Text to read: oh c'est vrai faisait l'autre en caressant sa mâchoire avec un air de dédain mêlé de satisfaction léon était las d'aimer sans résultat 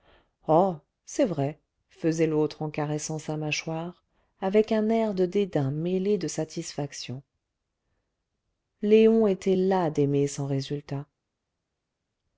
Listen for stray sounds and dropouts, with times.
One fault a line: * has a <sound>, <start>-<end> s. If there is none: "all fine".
all fine